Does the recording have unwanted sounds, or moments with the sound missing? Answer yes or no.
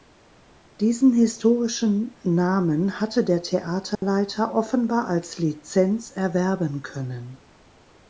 yes